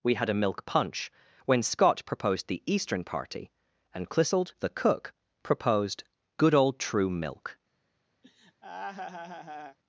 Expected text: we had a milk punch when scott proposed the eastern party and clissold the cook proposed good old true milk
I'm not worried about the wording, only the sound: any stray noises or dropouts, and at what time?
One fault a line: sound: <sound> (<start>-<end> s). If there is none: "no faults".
sound: laugh (8.2-9.8 s)